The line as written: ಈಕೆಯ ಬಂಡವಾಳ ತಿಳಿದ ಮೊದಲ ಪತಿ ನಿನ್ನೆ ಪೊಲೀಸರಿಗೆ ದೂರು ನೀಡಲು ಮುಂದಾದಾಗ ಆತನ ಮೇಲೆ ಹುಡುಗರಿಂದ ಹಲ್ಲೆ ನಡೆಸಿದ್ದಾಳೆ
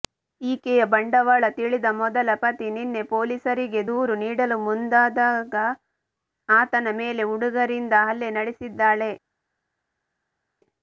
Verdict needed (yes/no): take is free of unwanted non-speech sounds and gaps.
yes